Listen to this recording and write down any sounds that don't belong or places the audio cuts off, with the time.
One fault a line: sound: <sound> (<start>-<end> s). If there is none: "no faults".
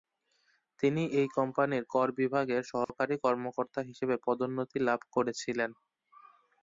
sound: dropout (2.8-2.9 s)